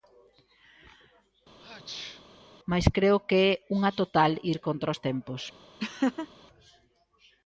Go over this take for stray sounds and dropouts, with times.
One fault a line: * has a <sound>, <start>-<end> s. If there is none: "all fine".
* has a sneeze, 1.6-2.2 s
* has a laugh, 5.8-6.3 s